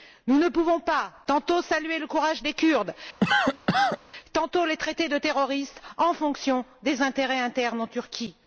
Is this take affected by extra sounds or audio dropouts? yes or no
yes